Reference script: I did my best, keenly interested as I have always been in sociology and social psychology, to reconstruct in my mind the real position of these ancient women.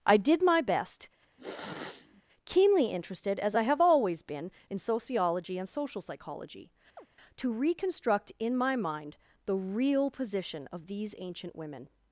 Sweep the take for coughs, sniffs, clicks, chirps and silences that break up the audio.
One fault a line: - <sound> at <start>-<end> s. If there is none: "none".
- sniff at 1.4-2.2 s
- chirp at 7.0-7.1 s